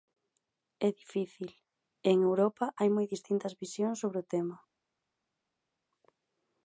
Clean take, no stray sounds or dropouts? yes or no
yes